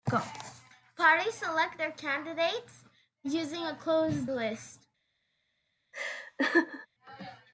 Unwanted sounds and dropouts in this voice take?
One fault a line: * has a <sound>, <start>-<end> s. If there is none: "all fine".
* has a laugh, 5.9-6.9 s